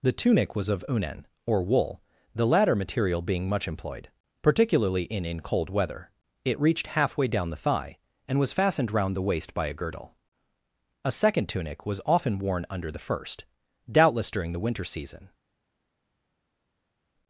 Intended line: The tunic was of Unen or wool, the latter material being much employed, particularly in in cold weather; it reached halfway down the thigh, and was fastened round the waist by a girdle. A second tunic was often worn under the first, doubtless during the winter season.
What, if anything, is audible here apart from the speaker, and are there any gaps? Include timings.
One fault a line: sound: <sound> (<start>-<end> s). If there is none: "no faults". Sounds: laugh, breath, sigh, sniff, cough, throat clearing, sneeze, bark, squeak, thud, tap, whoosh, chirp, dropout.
no faults